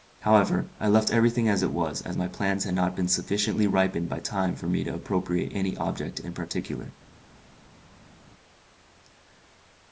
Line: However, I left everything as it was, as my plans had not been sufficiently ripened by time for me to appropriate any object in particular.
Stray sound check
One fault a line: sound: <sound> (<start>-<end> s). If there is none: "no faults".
no faults